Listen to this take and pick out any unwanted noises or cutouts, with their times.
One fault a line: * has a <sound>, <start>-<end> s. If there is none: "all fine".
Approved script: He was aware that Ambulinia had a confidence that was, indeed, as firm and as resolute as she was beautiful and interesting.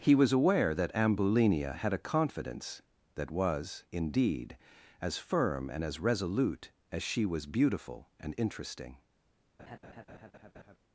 * has a laugh, 9.6-10.8 s